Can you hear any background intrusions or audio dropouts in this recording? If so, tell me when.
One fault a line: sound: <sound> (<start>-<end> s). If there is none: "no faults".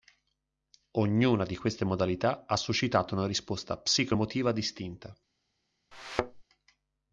sound: thud (5.9-6.4 s)